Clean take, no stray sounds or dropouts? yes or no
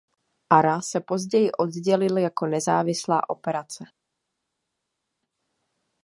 yes